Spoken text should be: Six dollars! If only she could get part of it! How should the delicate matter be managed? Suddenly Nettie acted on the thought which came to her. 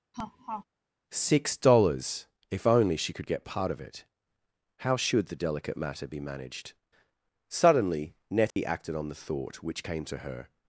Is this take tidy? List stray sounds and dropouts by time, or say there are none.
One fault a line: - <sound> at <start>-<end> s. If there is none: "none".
- laugh at 0.1-0.6 s
- dropout at 8.5-8.6 s